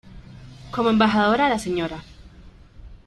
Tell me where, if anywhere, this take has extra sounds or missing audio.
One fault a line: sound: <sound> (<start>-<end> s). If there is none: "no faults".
no faults